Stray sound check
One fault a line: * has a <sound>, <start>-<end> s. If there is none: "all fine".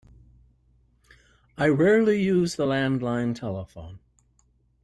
all fine